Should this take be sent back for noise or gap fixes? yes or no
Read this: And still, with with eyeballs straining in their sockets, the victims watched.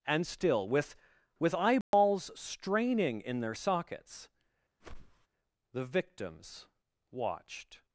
yes